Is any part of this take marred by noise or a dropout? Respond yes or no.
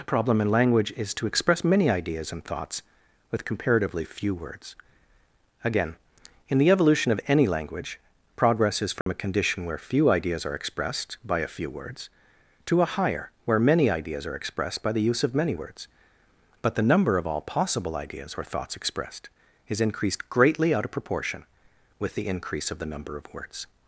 yes